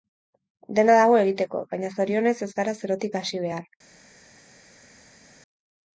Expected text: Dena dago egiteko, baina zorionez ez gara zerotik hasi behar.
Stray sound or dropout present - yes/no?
no